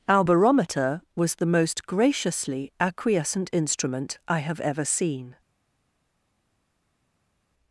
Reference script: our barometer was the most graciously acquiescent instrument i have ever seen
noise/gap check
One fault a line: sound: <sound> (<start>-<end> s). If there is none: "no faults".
no faults